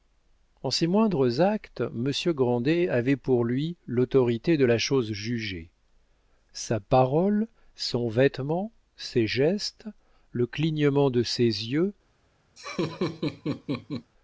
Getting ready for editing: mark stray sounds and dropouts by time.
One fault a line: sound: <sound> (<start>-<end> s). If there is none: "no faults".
sound: laugh (12.6-14.1 s)